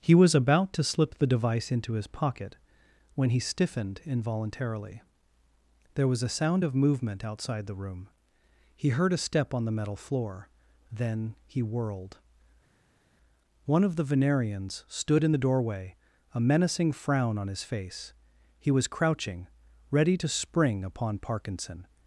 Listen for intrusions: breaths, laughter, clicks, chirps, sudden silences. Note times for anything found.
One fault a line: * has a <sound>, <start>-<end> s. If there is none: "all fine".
all fine